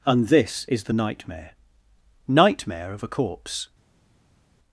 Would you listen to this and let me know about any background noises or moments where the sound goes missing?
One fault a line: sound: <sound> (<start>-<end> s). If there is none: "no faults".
no faults